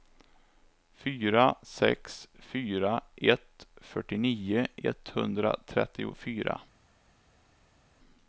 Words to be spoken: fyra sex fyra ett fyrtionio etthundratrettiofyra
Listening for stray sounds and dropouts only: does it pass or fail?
pass